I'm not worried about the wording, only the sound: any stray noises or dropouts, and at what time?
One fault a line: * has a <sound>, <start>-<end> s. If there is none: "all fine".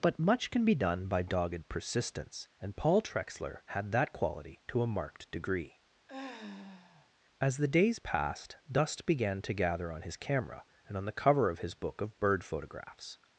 * has a sigh, 6.1-7.1 s